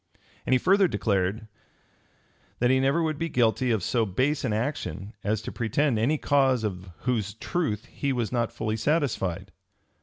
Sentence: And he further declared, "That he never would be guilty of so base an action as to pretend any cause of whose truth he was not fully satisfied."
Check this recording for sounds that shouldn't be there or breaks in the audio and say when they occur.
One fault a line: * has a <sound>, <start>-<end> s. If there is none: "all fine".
all fine